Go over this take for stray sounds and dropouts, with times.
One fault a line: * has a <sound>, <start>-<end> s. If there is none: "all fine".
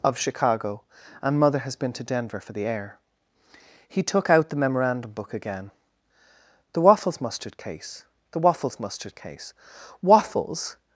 all fine